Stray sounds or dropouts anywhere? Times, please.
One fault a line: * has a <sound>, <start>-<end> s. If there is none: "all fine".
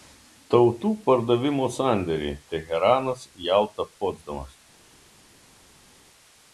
all fine